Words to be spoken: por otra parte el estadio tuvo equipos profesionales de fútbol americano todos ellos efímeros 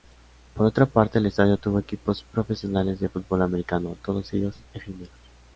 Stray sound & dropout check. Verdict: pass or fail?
pass